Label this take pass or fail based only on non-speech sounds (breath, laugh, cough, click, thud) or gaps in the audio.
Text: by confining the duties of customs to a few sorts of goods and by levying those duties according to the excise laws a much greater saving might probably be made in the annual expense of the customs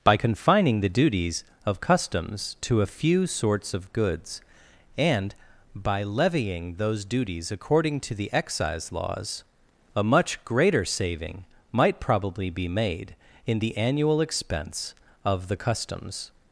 pass